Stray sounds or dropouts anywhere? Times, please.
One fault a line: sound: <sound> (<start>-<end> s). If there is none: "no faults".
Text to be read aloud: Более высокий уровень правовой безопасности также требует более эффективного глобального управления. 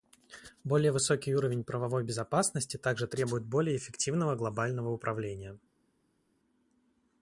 no faults